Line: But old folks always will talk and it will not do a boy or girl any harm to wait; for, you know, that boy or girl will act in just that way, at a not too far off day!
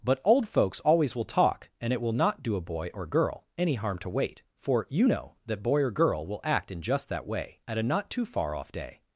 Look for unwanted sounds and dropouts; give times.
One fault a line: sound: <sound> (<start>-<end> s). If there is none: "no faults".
no faults